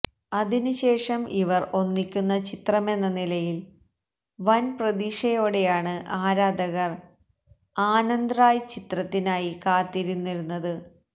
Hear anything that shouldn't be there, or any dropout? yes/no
no